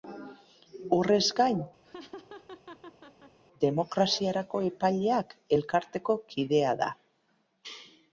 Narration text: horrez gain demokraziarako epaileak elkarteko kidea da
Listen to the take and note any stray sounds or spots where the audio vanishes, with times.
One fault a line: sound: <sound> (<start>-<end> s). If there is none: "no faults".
sound: laugh (1.8-3.4 s)